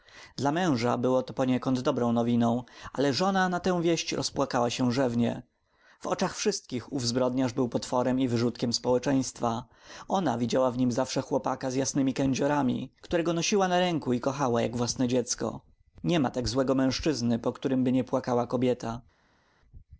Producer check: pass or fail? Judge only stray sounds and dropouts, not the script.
pass